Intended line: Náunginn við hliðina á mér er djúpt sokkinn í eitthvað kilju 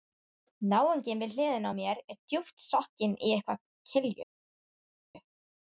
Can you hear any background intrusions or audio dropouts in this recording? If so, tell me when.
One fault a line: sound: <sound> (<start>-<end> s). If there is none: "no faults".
no faults